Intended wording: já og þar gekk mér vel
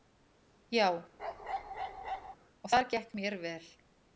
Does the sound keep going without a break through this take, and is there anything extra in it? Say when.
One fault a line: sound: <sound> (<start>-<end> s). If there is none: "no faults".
sound: bark (1.2-2.4 s)